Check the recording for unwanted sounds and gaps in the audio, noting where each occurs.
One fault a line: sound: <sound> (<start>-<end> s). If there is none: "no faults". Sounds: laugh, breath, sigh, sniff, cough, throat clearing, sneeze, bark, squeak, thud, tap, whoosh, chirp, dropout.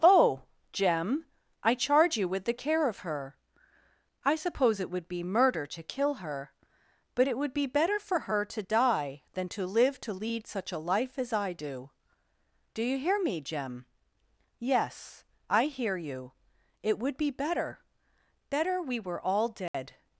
sound: dropout (19.7-19.7 s)